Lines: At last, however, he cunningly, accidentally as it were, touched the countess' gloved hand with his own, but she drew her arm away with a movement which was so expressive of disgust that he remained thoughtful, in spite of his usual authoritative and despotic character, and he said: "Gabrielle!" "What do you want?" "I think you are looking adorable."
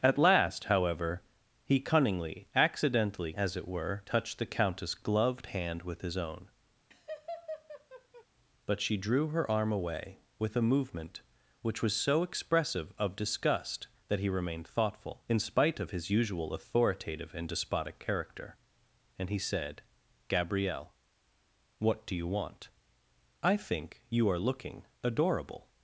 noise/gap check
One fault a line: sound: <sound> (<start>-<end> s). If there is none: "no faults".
sound: laugh (6.9-8.3 s)